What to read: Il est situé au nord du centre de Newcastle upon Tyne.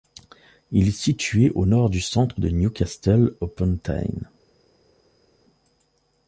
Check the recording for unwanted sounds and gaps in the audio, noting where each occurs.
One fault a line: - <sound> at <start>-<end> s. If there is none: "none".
none